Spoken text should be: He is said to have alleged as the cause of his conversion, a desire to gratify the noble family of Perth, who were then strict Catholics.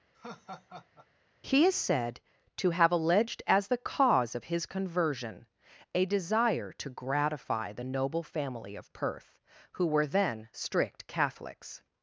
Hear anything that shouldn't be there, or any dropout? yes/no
yes